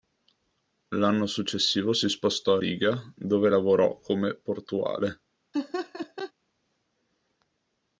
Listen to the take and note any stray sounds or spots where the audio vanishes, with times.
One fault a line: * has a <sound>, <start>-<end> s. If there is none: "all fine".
* has a laugh, 5.5-6.3 s